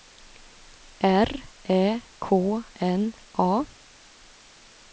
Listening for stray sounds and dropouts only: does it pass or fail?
pass